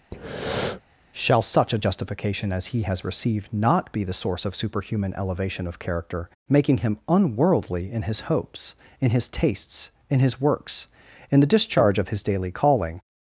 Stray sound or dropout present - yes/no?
yes